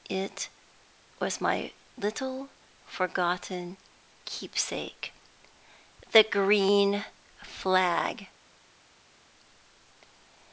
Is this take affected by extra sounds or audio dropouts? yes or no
no